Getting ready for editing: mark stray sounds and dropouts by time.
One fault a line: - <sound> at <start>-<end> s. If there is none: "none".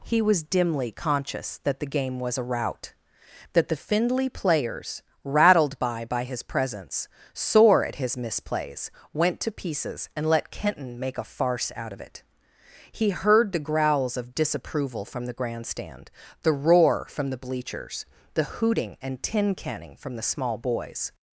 none